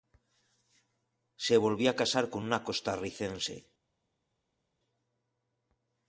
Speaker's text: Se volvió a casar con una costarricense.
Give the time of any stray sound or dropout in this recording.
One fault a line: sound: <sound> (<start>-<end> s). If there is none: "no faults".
no faults